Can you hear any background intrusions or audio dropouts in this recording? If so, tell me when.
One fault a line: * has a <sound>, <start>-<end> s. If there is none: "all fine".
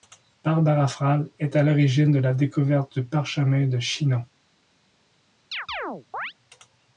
* has a chirp, 5.5-6.3 s